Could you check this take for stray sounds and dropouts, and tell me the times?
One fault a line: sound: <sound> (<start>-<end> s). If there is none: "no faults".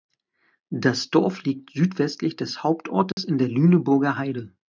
sound: dropout (3.1-3.2 s)